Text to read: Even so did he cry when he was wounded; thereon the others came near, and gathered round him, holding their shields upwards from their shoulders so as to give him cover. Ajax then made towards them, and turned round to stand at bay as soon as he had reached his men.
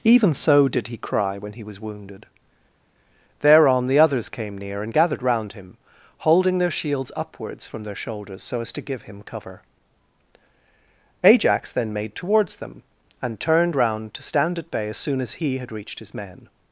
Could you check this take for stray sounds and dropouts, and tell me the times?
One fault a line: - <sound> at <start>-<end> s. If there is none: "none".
none